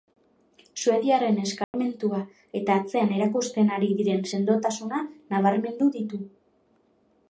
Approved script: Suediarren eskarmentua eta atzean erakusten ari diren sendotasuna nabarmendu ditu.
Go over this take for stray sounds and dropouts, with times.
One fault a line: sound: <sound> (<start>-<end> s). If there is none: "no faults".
sound: dropout (1.6-1.7 s)